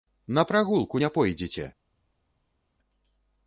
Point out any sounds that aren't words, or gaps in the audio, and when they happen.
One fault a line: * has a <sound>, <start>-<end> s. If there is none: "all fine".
all fine